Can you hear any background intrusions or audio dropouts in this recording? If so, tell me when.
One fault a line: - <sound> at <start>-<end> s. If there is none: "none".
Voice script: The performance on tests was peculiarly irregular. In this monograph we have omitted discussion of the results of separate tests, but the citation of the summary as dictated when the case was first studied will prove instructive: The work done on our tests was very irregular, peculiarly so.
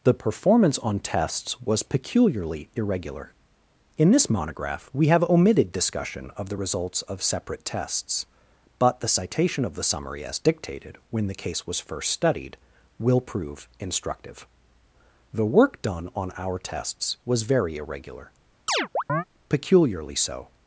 - chirp at 18.7-19.2 s